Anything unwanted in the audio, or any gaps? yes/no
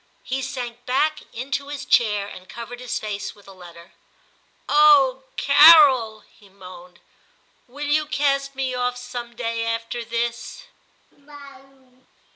yes